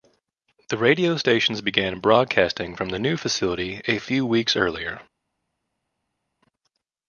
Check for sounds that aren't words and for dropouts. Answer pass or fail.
pass